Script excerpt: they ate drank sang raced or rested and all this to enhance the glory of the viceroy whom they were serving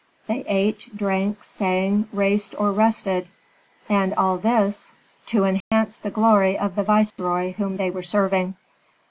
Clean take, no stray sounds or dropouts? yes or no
no